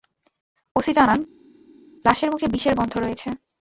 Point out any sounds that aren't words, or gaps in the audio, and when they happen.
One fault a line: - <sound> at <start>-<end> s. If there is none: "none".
none